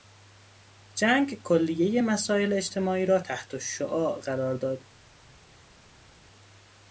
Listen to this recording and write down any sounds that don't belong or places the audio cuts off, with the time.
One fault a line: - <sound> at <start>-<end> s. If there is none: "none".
none